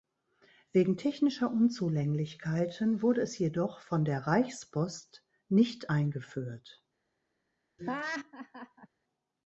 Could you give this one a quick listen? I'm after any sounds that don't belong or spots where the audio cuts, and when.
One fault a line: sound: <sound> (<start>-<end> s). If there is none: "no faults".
sound: laugh (7.8-8.9 s)